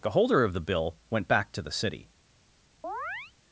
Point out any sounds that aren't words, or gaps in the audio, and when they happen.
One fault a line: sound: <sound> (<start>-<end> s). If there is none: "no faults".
sound: chirp (2.8-3.3 s)